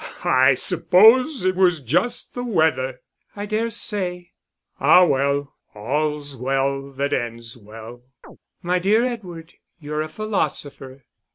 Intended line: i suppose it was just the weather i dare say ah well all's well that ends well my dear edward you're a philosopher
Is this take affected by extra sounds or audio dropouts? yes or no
yes